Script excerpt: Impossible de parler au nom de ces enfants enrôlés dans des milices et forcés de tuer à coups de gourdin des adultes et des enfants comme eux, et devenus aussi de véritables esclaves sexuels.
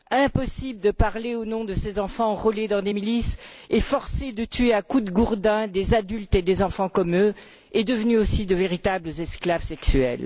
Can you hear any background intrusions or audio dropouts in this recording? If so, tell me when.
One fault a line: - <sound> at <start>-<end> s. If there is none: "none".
none